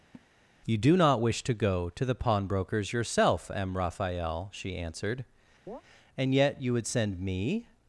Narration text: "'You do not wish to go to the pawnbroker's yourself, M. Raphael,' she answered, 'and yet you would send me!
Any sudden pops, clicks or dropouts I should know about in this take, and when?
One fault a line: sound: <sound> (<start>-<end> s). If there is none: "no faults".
sound: laugh (0.1-0.3 s)
sound: chirp (5.7-5.8 s)